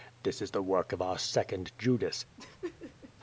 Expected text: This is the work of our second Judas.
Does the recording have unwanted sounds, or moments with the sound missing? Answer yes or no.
yes